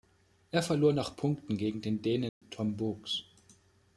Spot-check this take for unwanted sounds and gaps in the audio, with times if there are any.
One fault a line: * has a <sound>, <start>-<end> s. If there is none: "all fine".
* has a dropout, 2.3-2.4 s